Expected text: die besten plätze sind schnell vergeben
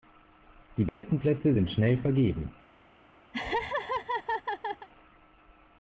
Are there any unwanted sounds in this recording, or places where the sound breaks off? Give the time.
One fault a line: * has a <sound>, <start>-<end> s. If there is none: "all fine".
* has a dropout, 0.9-1.0 s
* has a laugh, 3.3-4.9 s